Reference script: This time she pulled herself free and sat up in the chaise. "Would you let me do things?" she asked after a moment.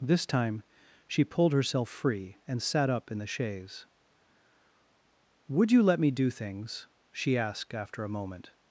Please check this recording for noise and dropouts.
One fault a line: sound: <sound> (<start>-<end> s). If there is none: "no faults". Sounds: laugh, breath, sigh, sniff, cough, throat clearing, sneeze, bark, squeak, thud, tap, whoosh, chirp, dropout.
no faults